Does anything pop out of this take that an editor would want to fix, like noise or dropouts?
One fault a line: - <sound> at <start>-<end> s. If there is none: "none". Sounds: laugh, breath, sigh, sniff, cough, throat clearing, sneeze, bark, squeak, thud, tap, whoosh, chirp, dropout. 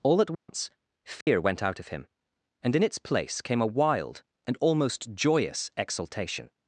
- dropout at 0.3-0.5 s
- dropout at 1.2-1.3 s